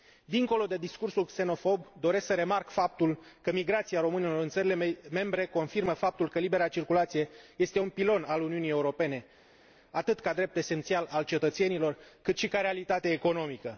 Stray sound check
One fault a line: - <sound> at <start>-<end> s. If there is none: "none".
none